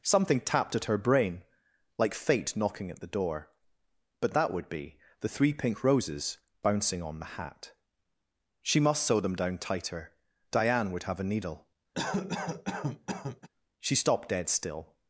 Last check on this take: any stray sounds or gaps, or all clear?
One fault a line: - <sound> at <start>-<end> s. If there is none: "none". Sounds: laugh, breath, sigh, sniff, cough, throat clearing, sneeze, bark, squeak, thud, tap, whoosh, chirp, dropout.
- cough at 11.9-13.5 s